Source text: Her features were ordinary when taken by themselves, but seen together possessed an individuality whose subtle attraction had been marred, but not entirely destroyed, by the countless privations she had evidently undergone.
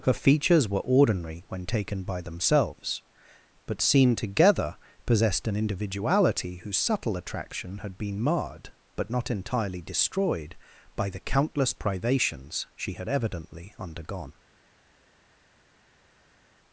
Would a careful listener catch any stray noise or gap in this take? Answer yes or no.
no